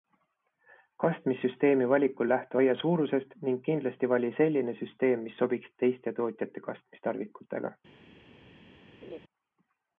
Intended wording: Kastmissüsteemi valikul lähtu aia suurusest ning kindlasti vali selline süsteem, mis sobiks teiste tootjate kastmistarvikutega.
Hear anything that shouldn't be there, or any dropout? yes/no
yes